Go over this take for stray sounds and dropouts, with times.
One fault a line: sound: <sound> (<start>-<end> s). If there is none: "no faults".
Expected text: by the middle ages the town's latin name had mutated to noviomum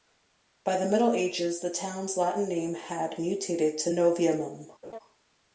sound: laugh (4.8-5.0 s)